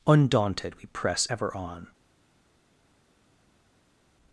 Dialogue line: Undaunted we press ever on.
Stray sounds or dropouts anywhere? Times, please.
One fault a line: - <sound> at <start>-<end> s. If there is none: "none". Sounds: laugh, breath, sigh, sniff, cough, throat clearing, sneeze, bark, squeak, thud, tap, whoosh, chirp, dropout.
none